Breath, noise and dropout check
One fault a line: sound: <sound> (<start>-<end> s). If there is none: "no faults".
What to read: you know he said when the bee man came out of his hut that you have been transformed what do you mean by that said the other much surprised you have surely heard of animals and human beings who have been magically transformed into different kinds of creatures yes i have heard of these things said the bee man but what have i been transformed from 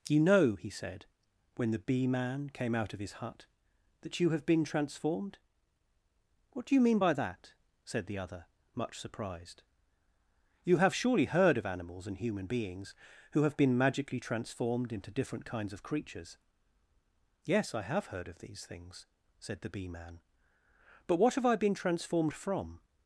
no faults